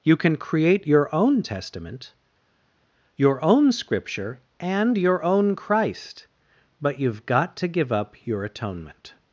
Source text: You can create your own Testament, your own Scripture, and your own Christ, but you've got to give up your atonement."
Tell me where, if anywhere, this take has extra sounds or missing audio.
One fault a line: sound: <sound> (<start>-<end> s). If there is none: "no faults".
no faults